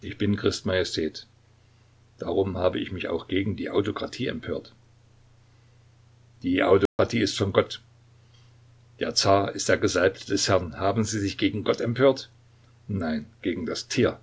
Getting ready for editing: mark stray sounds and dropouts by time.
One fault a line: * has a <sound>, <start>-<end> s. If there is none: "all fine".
* has a dropout, 6.9-7.0 s